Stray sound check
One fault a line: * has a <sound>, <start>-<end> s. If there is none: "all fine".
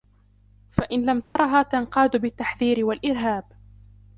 * has a dropout, 1.2-1.4 s